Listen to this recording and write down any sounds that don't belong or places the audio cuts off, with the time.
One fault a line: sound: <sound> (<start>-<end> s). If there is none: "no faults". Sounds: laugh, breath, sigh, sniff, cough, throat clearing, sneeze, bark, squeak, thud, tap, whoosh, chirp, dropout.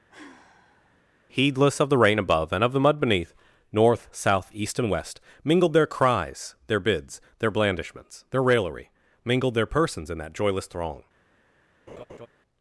sound: sigh (0.1-1.0 s)
sound: laugh (11.9-12.3 s)